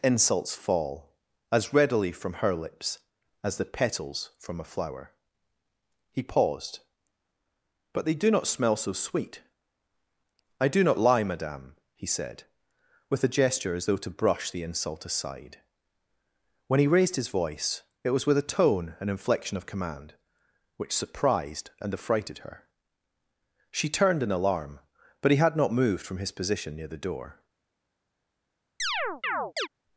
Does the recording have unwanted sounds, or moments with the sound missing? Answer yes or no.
yes